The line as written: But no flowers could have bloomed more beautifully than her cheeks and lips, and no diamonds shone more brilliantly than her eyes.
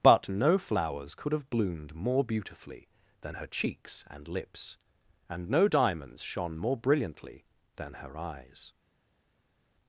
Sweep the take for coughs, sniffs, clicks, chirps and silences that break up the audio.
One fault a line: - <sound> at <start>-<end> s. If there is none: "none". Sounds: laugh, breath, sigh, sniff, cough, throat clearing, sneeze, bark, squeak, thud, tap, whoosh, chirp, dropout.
none